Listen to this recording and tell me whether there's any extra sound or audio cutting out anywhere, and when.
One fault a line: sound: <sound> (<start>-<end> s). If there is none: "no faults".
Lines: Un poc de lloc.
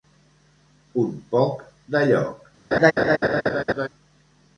sound: laugh (2.7-3.9 s)